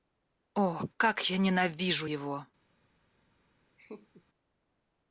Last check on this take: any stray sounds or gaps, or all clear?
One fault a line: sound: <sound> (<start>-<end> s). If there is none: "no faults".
sound: laugh (3.8-4.2 s)